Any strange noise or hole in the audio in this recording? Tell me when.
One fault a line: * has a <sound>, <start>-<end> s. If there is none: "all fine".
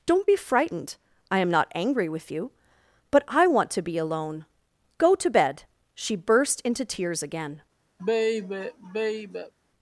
* has a sigh, 8.0-9.5 s